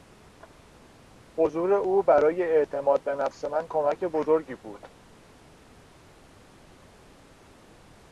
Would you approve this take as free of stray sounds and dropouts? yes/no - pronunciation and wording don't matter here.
yes